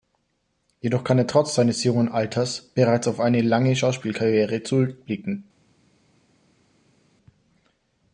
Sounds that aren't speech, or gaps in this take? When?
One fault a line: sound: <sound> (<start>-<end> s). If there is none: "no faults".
no faults